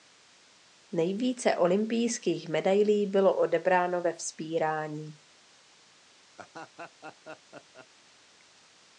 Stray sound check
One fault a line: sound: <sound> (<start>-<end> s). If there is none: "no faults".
sound: laugh (6.4-7.9 s)